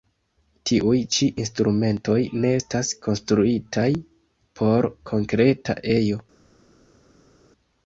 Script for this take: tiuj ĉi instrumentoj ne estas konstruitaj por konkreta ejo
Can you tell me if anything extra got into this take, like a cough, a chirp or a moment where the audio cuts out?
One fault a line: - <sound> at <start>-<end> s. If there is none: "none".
none